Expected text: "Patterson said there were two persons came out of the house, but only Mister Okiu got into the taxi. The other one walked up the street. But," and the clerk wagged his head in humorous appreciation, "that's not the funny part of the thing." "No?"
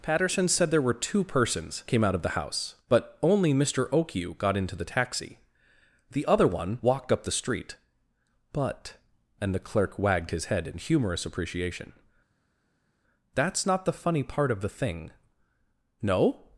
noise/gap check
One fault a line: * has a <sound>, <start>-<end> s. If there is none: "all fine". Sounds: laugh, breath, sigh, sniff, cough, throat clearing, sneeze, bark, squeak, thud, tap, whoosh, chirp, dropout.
all fine